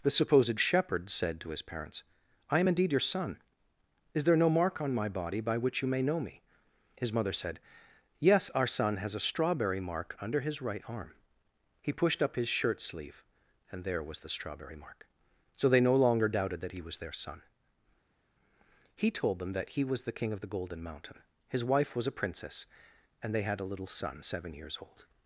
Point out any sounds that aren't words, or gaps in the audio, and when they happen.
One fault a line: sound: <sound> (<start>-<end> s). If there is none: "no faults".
no faults